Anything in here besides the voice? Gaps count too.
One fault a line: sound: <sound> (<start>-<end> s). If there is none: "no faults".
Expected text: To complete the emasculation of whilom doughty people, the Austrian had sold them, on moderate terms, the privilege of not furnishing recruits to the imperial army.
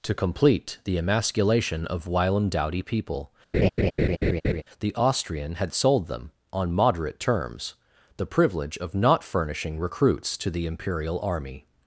sound: laugh (3.5-4.6 s)